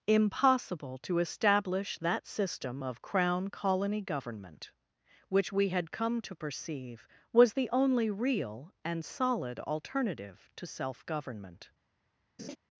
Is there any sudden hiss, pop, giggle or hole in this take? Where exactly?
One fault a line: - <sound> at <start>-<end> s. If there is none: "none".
- laugh at 12.4-12.6 s